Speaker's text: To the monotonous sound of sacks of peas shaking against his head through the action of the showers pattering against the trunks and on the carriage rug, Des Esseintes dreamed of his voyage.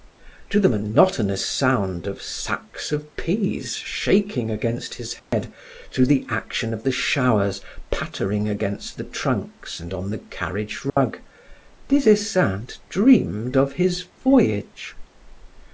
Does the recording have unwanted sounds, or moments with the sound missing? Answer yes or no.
yes